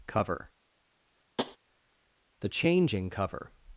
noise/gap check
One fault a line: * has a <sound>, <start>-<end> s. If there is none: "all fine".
* has a tap, 1.4-1.6 s